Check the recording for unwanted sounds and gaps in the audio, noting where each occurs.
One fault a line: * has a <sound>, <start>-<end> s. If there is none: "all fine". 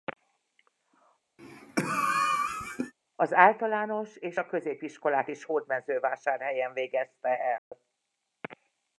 * has a cough, 1.4-2.9 s
* has a dropout, 7.6-7.7 s